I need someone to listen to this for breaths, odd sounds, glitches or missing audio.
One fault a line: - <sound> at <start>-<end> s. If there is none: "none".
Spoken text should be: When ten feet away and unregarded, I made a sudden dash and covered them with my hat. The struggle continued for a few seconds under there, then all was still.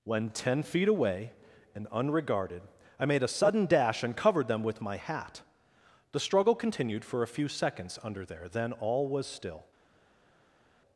none